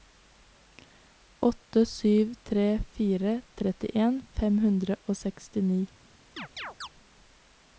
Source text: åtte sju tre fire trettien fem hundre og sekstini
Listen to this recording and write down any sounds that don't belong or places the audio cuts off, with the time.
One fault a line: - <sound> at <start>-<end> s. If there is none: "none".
- chirp at 6.4-6.9 s